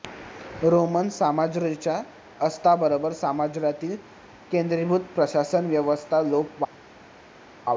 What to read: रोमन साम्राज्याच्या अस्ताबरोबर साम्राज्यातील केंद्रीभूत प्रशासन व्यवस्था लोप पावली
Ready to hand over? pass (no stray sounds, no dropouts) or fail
pass